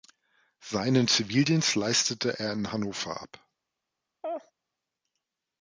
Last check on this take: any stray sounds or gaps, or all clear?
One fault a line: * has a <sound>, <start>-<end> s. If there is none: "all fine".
* has a laugh, 4.2-4.5 s